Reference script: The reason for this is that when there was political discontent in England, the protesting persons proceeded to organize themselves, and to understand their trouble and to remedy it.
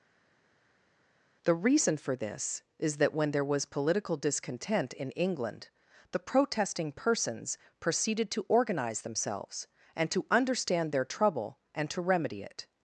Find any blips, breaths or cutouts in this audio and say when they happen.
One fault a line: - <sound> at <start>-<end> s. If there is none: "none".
none